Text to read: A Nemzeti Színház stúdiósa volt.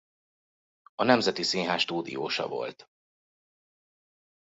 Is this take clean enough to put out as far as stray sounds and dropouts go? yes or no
yes